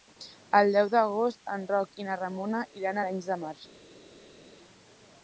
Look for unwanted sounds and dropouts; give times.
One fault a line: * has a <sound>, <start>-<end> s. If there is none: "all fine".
all fine